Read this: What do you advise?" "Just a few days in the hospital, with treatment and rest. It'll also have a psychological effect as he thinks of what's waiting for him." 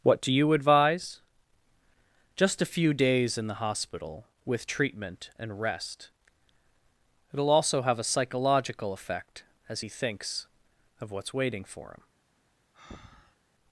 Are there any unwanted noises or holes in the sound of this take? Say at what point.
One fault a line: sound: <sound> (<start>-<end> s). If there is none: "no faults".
sound: breath (12.7-13.4 s)